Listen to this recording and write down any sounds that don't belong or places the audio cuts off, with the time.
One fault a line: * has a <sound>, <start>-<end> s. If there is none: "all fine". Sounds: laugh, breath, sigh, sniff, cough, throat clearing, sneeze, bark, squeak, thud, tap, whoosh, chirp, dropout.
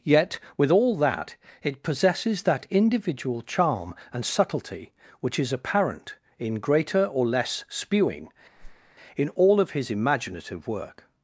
* has a whoosh, 8.6-8.9 s